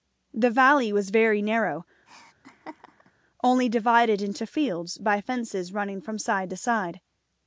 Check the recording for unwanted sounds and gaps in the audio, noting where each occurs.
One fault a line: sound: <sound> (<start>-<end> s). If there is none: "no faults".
sound: laugh (2.1-3.1 s)